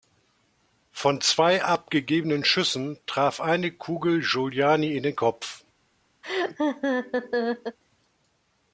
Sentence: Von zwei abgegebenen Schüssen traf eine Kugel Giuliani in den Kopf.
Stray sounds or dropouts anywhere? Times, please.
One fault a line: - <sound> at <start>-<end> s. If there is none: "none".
- laugh at 6.2-7.8 s